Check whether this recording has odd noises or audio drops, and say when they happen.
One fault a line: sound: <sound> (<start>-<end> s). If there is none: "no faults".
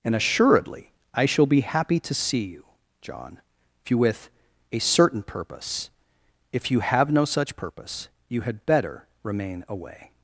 no faults